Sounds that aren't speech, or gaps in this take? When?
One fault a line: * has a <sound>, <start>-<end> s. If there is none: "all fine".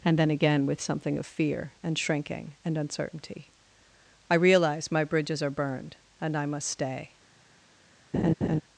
* has a laugh, 8.1-8.6 s